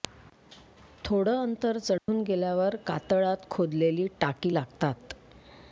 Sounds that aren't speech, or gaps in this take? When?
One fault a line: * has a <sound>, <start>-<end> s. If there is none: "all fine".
* has a dropout, 2.0-2.1 s